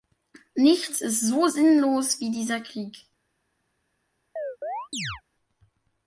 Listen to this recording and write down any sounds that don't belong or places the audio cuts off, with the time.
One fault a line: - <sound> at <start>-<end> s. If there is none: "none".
- chirp at 4.4-5.2 s